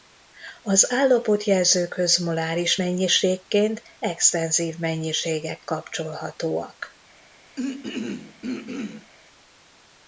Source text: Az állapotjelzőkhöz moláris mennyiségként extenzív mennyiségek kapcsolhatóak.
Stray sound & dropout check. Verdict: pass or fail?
fail